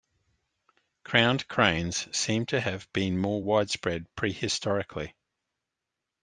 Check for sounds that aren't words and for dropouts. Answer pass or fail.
pass